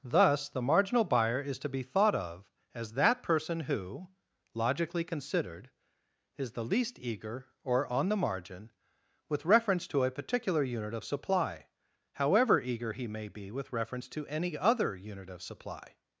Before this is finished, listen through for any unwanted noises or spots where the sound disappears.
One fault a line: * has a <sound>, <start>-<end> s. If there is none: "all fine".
all fine